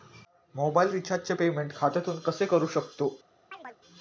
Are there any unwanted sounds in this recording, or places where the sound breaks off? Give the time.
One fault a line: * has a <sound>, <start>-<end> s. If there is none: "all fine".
* has a chirp, 3.5-3.8 s